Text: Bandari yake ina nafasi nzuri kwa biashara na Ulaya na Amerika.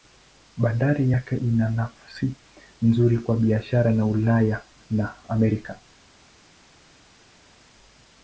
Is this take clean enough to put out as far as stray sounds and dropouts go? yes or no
yes